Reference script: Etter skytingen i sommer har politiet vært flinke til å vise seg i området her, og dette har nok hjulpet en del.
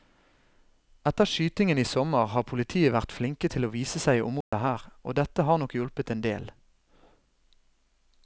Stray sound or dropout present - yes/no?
yes